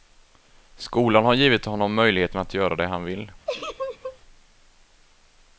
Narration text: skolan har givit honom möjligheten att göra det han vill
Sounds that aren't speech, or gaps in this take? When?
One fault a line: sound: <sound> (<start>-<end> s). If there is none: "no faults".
sound: laugh (3.5-4.2 s)